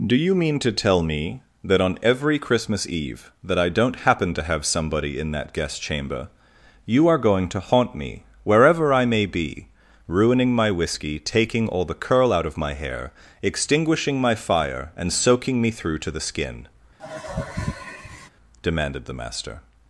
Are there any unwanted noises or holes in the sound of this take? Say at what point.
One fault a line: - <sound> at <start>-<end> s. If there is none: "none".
- sigh at 17.0-18.3 s